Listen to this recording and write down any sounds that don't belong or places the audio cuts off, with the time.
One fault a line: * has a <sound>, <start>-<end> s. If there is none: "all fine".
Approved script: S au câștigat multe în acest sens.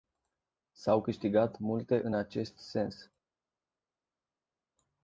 all fine